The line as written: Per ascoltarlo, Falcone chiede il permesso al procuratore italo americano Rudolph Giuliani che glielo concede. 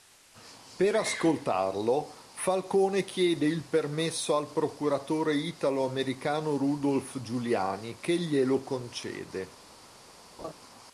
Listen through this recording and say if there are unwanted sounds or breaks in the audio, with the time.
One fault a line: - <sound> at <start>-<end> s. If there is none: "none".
- laugh at 10.4-10.5 s